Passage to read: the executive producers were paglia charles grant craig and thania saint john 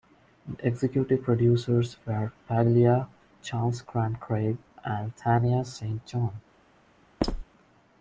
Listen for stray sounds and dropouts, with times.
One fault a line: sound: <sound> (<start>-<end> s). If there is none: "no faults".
sound: squeak (7.2-7.4 s)